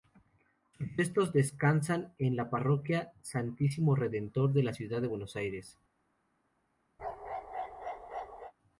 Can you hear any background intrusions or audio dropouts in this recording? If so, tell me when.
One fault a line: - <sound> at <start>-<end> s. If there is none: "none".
- bark at 7.0-8.5 s